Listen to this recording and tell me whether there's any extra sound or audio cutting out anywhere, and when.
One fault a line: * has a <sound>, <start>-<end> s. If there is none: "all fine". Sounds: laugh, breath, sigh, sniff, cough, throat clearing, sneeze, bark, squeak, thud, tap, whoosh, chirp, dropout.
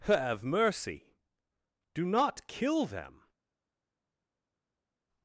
all fine